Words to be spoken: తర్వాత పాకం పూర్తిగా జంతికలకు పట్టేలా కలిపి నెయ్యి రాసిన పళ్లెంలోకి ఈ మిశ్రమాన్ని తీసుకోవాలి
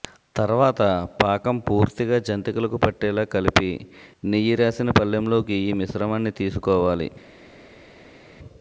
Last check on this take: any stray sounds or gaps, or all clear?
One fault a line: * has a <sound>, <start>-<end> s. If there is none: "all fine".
all fine